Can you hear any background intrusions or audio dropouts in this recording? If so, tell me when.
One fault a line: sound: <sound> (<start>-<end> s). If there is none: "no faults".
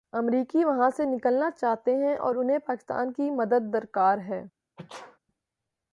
sound: sneeze (4.8-5.2 s)